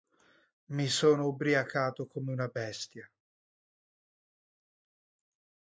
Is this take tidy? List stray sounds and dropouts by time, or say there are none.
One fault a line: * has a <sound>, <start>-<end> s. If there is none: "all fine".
all fine